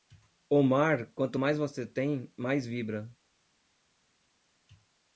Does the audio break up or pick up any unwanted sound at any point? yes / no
no